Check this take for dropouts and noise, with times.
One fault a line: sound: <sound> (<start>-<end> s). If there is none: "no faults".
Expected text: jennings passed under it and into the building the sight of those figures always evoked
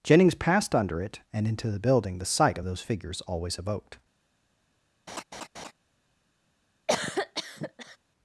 sound: laugh (5.1-5.7 s)
sound: cough (6.9-8.0 s)